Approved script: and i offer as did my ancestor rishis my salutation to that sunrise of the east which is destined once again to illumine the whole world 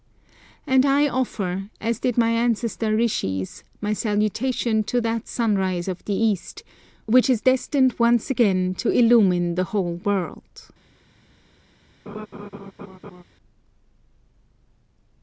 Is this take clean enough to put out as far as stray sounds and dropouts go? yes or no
no